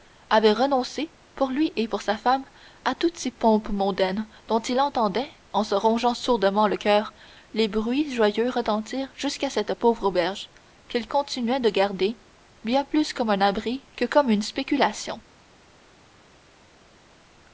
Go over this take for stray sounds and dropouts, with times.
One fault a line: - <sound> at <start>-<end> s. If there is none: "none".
none